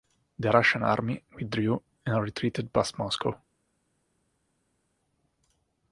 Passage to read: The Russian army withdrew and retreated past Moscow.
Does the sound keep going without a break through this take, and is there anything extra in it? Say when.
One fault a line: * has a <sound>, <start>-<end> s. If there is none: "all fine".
all fine